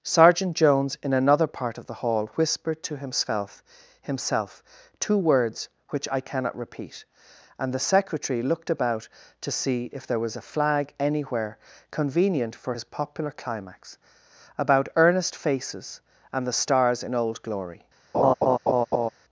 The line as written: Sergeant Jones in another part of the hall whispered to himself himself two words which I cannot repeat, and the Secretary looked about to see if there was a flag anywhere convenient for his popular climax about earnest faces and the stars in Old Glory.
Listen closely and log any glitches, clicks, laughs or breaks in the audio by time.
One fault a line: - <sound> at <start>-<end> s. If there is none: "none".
- laugh at 18.1-19.1 s